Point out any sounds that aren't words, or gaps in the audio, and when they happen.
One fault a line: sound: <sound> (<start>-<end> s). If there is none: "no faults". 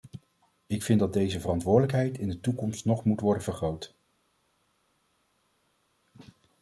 no faults